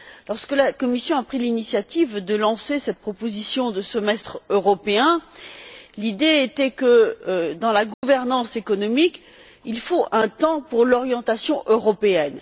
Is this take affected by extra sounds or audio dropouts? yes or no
yes